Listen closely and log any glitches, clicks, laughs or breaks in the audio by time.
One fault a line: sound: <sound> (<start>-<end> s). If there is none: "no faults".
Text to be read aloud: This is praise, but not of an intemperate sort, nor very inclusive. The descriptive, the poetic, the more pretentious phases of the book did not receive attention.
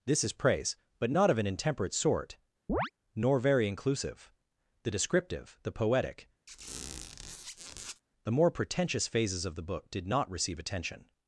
sound: chirp (2.7-2.9 s)
sound: squeak (6.5-8.0 s)